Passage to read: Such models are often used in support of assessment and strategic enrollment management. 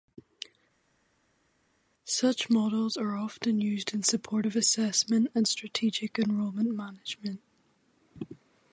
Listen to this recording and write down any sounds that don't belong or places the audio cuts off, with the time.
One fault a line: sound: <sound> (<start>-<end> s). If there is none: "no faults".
no faults